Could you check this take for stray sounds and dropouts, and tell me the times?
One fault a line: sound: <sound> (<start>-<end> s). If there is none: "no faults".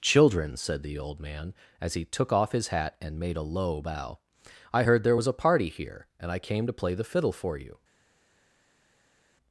no faults